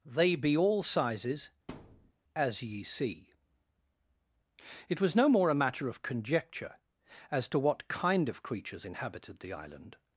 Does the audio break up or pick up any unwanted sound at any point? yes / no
yes